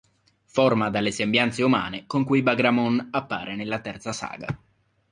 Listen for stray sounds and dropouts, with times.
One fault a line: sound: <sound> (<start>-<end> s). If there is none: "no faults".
no faults